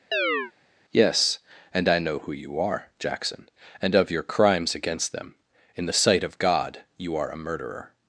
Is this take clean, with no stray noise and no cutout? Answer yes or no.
no